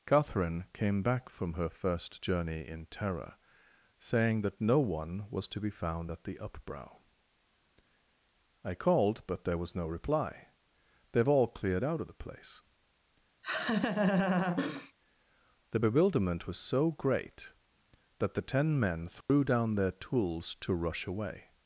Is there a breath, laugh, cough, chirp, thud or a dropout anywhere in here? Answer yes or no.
yes